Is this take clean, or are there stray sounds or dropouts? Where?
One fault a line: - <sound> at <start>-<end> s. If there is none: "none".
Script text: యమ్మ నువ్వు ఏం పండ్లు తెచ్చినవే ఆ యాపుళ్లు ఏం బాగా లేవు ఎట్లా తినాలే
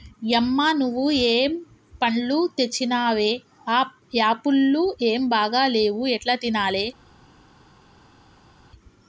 none